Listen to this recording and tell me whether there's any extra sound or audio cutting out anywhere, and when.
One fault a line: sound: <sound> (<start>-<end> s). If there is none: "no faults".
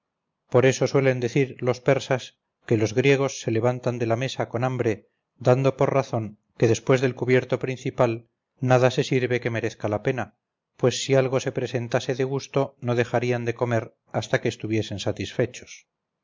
no faults